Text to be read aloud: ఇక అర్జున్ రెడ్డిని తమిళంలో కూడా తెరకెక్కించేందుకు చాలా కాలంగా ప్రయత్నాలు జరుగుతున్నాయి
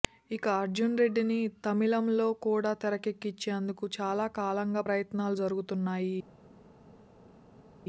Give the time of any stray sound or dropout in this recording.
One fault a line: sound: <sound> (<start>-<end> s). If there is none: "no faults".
no faults